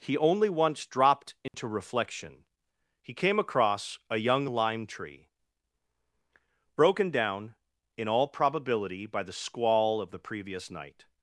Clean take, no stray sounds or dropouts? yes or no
no